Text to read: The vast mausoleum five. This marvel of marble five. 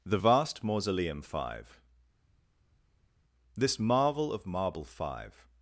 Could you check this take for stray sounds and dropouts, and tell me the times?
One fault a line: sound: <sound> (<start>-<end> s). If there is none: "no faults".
no faults